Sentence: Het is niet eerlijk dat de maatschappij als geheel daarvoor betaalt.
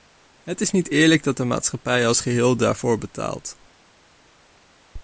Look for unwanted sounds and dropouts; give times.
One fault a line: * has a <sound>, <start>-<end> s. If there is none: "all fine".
all fine